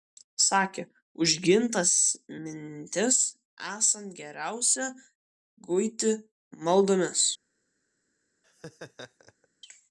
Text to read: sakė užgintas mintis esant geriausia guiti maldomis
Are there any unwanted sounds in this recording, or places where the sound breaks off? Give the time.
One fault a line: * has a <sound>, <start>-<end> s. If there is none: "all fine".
* has a laugh, 8.4-9.5 s